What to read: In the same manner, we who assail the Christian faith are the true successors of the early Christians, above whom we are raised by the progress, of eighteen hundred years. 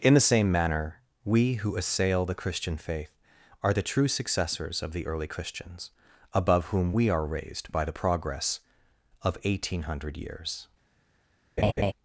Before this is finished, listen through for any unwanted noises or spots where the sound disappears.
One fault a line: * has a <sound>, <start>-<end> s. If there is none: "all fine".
* has a laugh, 11.6-11.9 s